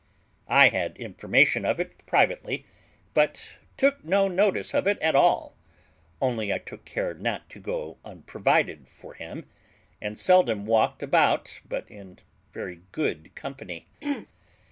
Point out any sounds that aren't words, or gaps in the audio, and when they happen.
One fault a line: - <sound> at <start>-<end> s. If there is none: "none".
- throat clearing at 14.0-14.3 s